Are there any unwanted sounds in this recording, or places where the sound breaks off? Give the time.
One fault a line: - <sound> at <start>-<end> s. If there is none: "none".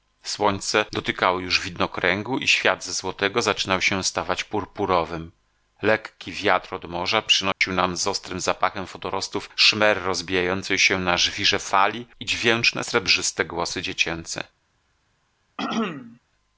- dropout at 7.5-7.6 s
- throat clearing at 15.6-16.2 s